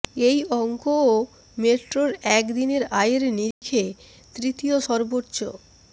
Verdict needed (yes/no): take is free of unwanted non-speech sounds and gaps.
no